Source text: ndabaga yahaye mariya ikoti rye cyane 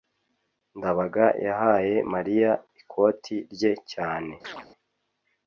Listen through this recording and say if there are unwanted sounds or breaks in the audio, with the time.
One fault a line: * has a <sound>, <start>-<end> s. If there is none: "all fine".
* has a chirp, 4.4-4.7 s